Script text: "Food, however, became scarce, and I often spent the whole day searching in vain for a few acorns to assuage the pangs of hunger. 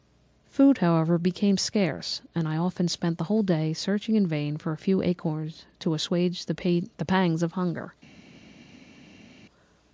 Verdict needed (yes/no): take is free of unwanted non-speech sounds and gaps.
yes